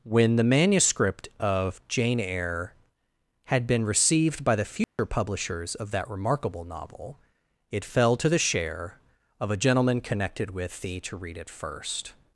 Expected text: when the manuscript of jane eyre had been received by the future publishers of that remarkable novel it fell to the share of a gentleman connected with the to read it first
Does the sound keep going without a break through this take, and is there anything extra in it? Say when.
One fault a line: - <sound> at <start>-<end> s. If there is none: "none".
- dropout at 4.8-5.0 s